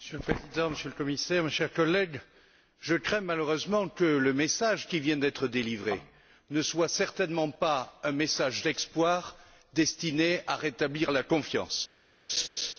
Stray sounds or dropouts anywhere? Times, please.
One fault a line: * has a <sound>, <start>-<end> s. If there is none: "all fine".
* has a laugh, 12.3-12.7 s